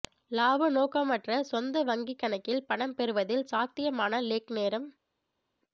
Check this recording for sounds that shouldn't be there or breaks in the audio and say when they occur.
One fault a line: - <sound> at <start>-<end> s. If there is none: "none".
none